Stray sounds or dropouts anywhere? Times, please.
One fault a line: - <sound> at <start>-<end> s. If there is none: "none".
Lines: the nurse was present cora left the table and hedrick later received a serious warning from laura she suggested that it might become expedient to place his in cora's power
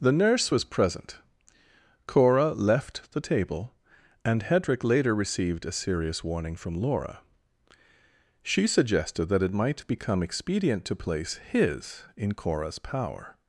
none